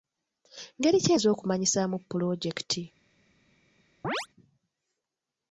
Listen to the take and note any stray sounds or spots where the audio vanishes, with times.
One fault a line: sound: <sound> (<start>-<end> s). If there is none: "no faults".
sound: chirp (4.0-4.3 s)